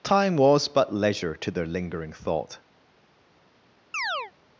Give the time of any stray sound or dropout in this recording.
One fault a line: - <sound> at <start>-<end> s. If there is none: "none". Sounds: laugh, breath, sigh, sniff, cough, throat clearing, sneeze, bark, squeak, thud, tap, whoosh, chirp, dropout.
- chirp at 3.9-4.3 s